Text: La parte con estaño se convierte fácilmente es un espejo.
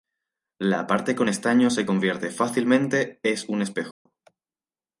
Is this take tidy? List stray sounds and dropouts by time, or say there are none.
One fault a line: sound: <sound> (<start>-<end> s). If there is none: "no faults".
sound: dropout (3.9-4.1 s)